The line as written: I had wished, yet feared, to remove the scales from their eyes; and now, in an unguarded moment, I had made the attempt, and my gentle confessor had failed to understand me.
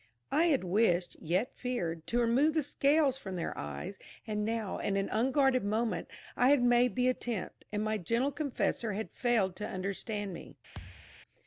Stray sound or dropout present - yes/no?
yes